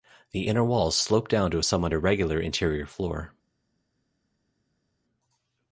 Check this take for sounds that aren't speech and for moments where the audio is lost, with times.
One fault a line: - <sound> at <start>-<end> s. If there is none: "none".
none